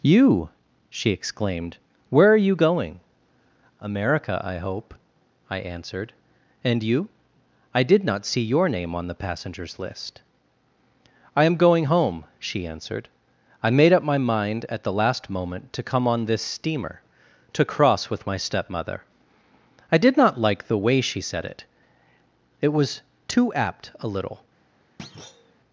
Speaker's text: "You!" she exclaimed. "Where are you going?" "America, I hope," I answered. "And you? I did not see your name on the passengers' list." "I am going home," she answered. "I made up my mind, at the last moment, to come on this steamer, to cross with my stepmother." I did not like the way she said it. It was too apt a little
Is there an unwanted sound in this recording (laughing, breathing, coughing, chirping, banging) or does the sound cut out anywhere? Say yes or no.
yes